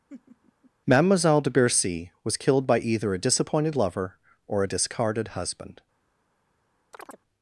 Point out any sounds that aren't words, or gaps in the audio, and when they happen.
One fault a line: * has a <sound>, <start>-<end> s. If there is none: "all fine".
* has a laugh, 0.1-0.7 s
* has a chirp, 6.9-7.2 s